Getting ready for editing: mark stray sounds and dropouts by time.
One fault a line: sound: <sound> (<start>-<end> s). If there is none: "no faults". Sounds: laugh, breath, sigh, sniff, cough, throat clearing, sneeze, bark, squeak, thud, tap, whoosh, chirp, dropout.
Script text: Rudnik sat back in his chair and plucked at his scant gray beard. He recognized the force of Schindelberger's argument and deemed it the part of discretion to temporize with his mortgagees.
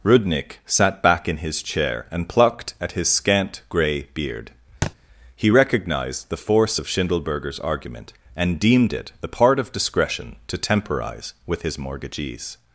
sound: thud (4.8-4.9 s)